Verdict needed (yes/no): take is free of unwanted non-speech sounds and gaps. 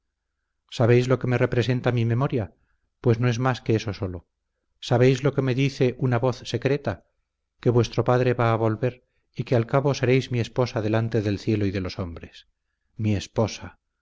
yes